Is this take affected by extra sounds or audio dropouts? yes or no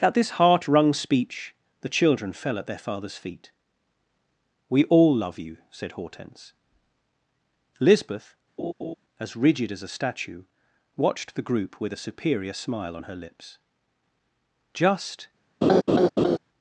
yes